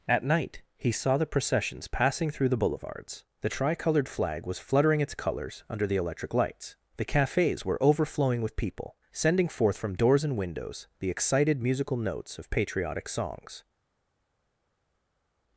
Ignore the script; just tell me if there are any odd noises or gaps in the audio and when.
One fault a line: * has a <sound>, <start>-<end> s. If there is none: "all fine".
all fine